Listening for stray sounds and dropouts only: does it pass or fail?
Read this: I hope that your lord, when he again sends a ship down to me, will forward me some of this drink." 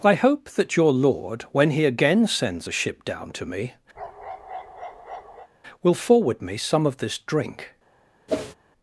fail